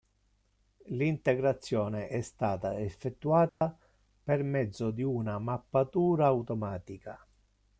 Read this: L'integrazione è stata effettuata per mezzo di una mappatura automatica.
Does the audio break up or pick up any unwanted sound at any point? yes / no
yes